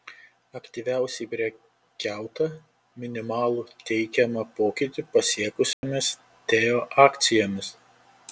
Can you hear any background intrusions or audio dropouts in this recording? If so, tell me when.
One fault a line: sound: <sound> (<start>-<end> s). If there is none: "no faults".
sound: dropout (5.7-5.8 s)